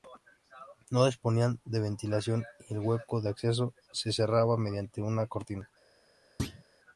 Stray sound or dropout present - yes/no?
yes